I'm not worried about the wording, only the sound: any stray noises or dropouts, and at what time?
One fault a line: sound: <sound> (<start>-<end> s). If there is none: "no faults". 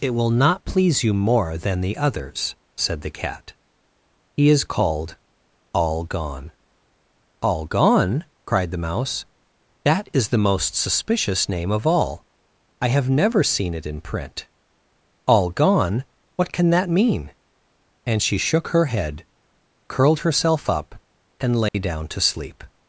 sound: dropout (21.7-21.7 s)